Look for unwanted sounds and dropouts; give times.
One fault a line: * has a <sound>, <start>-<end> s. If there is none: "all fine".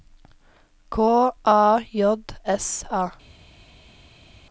all fine